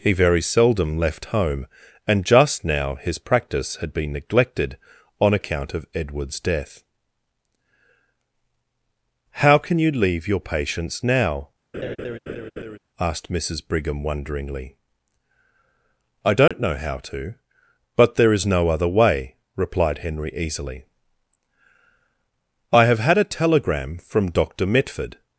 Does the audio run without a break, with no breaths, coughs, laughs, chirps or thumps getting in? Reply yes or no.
no